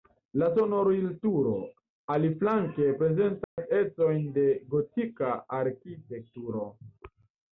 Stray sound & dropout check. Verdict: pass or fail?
fail